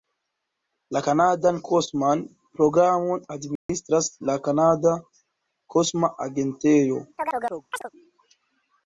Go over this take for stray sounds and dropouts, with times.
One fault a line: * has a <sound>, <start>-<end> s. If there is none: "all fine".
* has a dropout, 3.6-3.7 s
* has a chirp, 7.2-7.9 s